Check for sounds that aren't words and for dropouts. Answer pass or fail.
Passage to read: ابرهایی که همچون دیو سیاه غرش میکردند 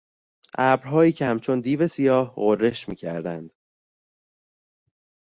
pass